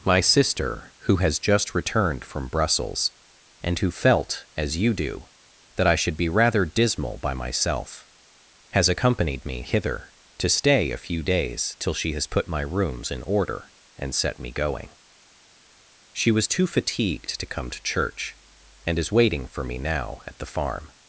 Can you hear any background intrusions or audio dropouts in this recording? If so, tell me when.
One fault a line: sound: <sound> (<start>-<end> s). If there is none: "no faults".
no faults